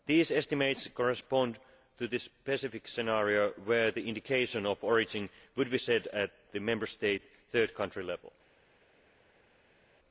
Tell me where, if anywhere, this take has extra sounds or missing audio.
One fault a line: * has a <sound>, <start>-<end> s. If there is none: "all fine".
all fine